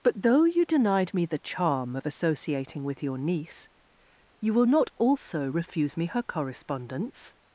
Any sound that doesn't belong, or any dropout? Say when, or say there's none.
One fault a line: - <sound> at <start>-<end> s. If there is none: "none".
none